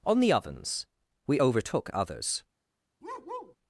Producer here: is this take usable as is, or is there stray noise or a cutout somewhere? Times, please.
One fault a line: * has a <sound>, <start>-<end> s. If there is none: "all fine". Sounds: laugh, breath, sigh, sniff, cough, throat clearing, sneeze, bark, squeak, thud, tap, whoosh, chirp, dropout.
* has a bark, 3.0-3.6 s